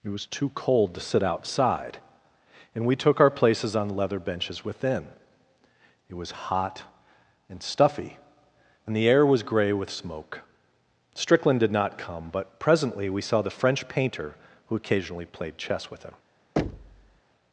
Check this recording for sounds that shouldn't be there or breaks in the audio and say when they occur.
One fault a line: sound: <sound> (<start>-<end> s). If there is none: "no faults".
sound: thud (16.6-17.2 s)